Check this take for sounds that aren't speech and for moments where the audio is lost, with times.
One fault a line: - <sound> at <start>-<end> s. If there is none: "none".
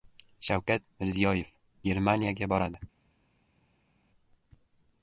none